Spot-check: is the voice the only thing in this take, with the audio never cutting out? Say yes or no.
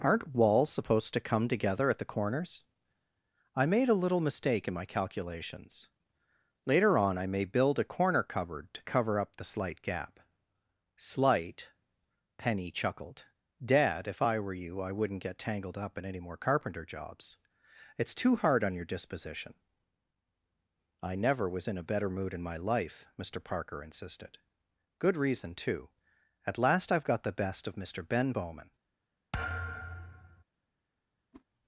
no